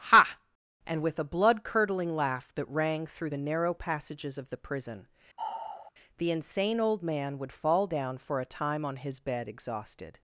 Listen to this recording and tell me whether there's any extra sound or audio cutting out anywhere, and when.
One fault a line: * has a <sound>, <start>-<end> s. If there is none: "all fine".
* has a sigh, 5.4-5.9 s